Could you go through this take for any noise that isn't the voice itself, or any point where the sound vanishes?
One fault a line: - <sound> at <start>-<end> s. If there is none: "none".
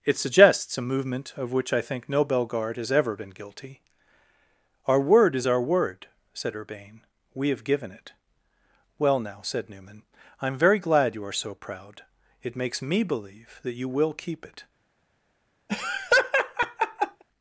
- laugh at 15.7-17.2 s